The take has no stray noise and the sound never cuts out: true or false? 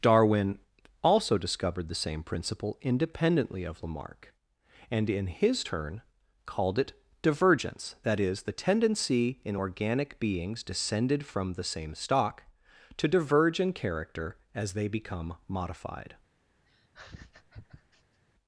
false